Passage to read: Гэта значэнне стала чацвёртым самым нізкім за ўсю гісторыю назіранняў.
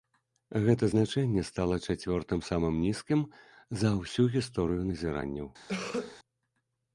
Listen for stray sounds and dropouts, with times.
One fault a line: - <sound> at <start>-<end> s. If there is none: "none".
- cough at 5.7-6.2 s